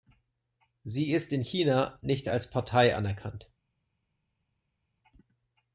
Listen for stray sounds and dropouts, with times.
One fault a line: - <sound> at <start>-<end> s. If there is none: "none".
none